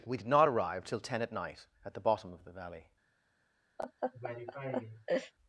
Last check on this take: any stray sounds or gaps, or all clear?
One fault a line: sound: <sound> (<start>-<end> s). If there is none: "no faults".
sound: laugh (3.8-5.3 s)